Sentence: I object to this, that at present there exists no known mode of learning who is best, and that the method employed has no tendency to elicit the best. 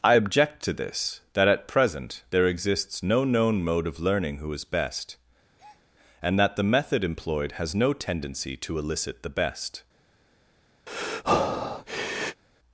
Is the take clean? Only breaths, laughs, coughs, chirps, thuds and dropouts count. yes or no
no